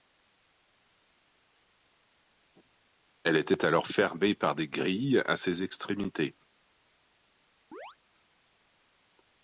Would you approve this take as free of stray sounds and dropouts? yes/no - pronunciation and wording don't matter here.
no